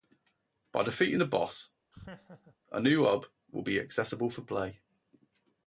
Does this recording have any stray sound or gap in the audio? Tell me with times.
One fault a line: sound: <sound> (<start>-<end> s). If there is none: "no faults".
sound: laugh (1.9-2.6 s)